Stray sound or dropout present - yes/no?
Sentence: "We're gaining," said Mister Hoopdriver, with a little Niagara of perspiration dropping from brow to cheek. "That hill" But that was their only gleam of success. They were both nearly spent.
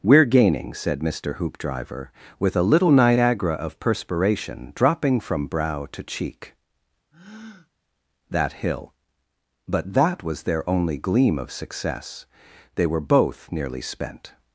yes